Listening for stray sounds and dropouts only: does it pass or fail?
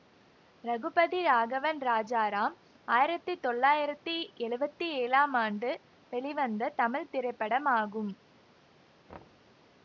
fail